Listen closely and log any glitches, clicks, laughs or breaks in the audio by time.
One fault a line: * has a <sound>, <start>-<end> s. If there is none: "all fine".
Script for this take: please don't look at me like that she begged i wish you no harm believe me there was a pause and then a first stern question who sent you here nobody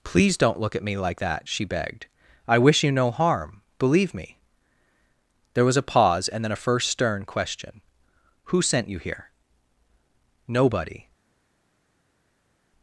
all fine